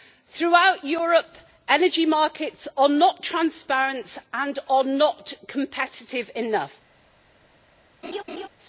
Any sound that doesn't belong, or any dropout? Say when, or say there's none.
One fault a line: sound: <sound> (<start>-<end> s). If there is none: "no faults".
sound: laugh (8.0-8.5 s)